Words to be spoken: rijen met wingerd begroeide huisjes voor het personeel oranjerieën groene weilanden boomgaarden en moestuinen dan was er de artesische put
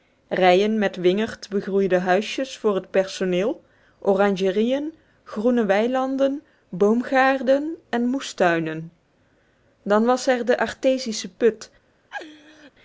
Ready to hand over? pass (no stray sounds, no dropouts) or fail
fail